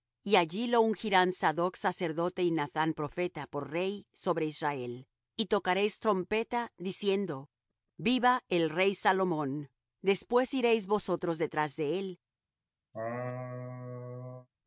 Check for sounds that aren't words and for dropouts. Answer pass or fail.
fail